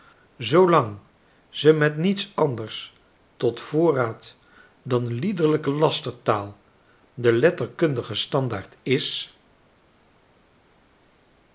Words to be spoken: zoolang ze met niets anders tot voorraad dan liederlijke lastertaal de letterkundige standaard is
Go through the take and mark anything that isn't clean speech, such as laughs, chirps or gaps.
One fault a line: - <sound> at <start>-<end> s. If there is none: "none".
none